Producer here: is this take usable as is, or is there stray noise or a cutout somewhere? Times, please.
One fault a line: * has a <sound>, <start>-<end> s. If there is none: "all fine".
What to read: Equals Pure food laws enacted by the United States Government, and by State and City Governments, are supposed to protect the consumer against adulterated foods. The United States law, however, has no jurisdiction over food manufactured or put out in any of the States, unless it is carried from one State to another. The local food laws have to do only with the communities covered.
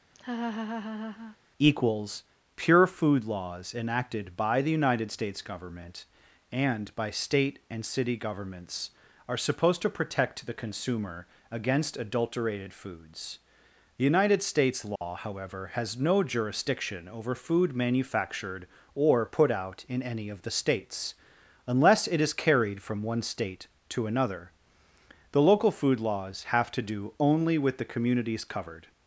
* has a laugh, 0.1-1.4 s
* has a dropout, 15.0-15.0 s